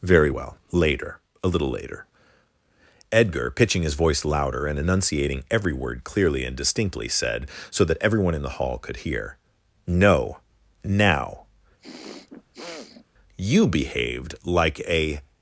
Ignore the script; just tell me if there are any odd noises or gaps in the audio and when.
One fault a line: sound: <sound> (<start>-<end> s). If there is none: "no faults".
sound: throat clearing (11.8-13.1 s)